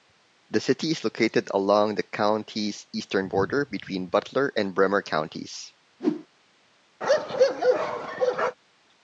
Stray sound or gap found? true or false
true